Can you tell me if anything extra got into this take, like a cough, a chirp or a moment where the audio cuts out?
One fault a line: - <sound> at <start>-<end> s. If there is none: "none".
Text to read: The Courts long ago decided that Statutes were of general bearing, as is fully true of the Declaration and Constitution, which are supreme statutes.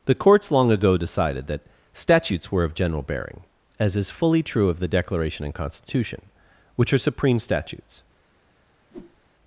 - whoosh at 8.9-9.2 s